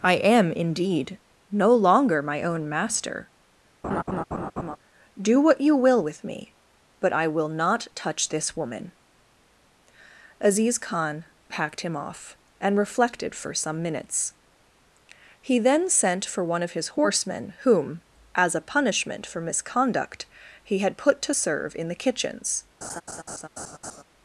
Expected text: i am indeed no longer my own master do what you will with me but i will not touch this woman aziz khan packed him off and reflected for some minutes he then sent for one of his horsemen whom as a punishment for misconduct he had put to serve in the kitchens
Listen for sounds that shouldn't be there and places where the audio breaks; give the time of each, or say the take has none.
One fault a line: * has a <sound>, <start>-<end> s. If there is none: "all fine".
* has a laugh, 3.8-4.8 s
* has a laugh, 22.8-24.0 s